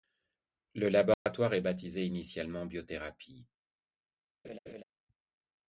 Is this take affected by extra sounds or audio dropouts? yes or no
yes